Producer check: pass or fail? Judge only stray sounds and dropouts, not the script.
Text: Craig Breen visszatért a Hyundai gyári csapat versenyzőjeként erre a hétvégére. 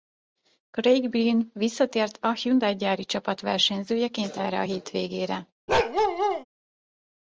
fail